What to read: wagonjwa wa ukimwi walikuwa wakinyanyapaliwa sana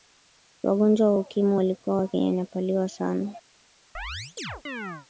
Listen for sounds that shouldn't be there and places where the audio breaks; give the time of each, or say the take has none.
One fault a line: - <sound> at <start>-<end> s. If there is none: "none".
- chirp at 3.9-5.1 s